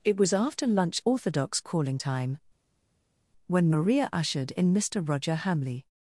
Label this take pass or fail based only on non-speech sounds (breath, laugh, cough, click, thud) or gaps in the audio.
pass